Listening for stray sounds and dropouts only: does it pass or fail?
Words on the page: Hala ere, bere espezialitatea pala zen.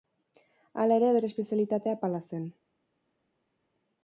pass